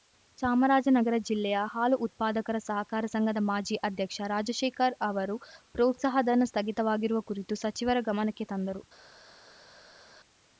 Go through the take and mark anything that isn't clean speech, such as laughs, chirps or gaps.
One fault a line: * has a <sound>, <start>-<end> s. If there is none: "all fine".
all fine